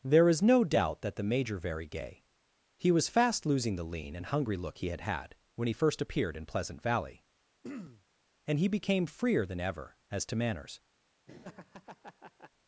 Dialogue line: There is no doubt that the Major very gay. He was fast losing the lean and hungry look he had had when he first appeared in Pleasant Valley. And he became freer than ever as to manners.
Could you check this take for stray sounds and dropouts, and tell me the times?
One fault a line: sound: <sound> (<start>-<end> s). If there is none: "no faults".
sound: throat clearing (7.6-8.0 s)
sound: laugh (11.3-12.5 s)